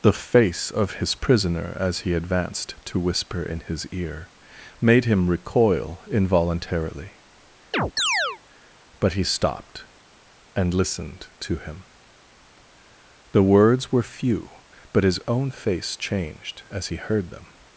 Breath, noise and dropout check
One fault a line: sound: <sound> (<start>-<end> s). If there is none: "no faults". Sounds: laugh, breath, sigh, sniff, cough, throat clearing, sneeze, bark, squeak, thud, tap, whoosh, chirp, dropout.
sound: chirp (7.7-8.4 s)